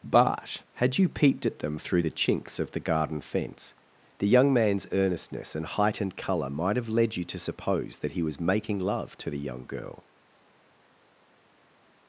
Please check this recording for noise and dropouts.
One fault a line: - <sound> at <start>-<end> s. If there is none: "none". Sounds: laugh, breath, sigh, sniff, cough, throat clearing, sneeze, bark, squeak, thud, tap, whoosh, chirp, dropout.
none